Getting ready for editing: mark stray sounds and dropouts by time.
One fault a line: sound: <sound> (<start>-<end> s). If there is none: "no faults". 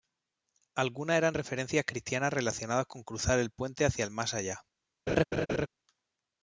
sound: laugh (5.1-5.7 s)